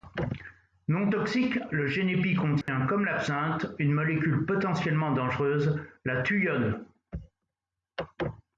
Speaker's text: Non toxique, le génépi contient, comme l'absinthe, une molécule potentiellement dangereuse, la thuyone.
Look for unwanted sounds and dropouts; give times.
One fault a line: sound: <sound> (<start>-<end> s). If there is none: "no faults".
sound: dropout (2.6-2.7 s)